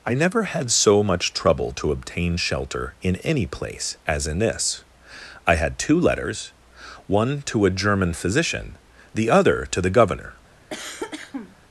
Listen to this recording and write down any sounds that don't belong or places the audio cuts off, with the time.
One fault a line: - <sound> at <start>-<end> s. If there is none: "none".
- cough at 10.7-11.6 s